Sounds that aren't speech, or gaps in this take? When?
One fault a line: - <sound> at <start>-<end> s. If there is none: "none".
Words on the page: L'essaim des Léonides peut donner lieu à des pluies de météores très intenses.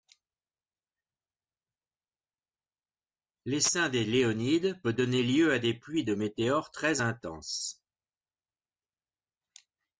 none